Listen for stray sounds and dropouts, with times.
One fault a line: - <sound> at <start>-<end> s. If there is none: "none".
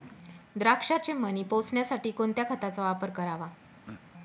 - throat clearing at 3.9-4.0 s